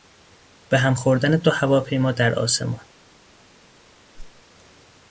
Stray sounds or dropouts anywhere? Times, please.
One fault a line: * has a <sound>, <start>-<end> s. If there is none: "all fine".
* has a whoosh, 4.1-4.4 s